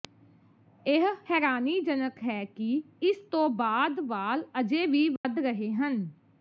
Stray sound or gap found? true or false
true